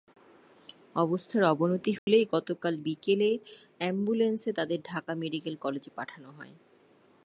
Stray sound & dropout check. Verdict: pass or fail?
fail